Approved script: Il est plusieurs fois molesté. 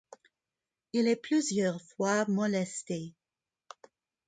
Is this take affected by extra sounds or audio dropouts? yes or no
no